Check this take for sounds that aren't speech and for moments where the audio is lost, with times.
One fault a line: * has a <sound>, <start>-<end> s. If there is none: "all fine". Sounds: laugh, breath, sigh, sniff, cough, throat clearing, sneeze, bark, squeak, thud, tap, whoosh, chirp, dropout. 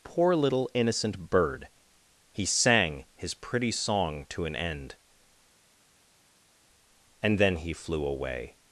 all fine